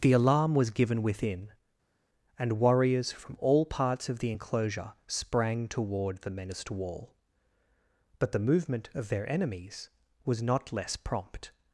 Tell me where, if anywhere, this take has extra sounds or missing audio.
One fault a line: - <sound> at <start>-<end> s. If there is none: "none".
none